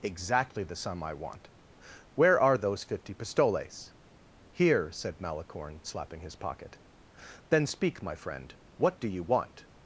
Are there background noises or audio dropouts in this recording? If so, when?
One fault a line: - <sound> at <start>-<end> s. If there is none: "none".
none